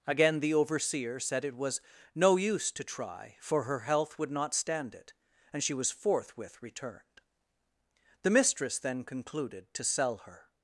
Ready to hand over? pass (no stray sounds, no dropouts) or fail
pass